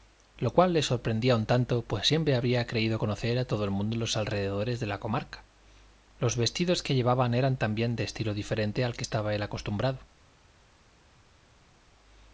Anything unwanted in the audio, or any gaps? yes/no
no